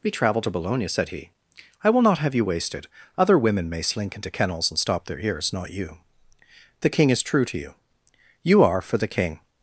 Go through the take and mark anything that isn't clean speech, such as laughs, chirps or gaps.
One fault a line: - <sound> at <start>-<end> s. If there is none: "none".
none